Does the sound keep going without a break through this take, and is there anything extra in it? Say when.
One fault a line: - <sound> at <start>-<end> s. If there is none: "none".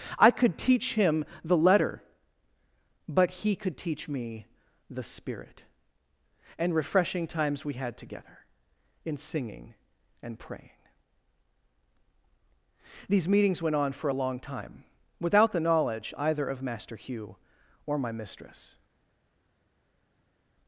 none